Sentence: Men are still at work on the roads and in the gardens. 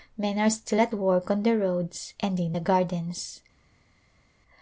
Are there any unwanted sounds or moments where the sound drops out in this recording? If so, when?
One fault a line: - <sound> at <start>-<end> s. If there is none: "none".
none